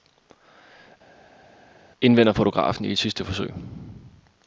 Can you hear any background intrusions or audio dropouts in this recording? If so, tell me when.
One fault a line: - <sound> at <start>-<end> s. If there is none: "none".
none